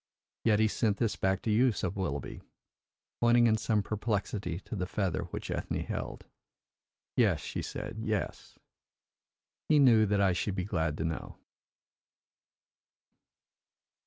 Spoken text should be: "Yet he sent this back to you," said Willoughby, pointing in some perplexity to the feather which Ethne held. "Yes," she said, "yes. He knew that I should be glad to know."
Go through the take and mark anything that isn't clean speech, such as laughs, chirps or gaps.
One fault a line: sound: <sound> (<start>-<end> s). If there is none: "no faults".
no faults